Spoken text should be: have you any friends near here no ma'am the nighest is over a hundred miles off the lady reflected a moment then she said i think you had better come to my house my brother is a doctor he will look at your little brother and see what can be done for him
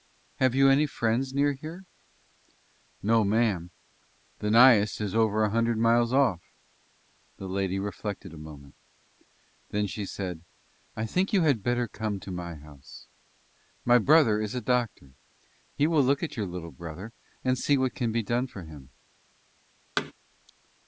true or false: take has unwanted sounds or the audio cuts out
true